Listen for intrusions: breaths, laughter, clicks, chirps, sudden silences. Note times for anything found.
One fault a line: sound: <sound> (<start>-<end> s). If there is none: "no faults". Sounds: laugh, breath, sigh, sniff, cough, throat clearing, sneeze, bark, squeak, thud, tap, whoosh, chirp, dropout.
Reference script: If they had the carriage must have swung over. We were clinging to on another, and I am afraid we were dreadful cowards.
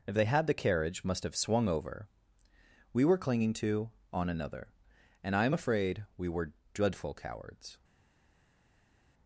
no faults